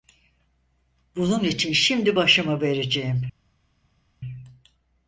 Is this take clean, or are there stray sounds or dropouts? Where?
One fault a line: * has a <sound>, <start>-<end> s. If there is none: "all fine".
all fine